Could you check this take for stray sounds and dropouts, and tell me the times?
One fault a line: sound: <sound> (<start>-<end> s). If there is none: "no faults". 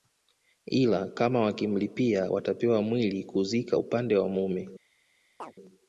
sound: chirp (5.4-5.6 s)